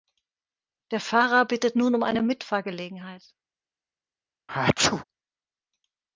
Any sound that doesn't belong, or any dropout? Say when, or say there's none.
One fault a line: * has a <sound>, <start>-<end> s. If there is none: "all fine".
* has a sneeze, 4.5-5.0 s